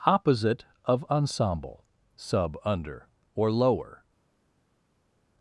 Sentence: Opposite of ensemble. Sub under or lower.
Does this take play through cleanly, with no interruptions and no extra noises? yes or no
yes